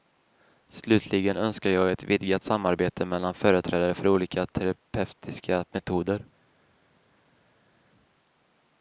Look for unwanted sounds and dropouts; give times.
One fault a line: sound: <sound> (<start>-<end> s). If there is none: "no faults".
no faults